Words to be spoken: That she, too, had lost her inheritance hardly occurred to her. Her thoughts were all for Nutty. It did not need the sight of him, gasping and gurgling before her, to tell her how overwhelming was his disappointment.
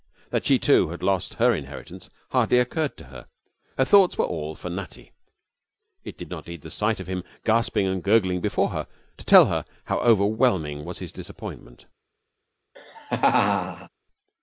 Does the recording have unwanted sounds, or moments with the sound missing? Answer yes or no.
yes